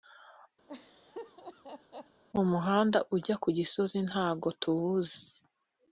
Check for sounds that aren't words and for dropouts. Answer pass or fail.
fail